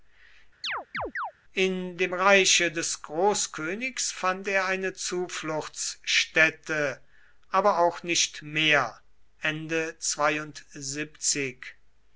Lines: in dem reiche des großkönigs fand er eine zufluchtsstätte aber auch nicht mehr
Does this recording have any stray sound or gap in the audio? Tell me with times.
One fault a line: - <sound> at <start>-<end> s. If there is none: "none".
- chirp at 0.6-1.3 s